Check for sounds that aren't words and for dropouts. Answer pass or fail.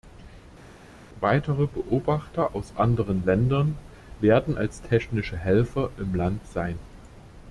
pass